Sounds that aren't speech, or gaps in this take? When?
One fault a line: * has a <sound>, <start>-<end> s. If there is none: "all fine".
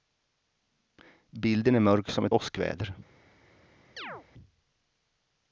* has a chirp, 4.0-4.3 s